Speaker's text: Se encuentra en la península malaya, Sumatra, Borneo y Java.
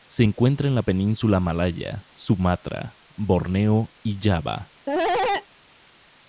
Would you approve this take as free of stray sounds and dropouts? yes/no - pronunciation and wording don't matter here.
no